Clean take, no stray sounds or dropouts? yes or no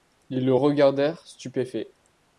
yes